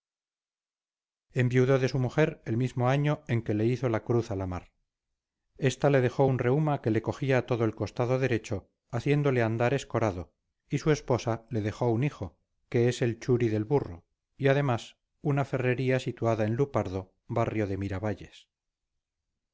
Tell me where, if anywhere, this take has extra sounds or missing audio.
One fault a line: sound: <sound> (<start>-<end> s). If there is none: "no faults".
no faults